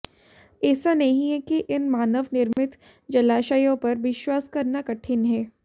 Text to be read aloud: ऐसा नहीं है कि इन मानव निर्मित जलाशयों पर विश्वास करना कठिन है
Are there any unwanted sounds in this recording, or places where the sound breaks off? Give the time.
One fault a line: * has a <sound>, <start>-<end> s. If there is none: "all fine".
* has a dropout, 2.5-2.6 s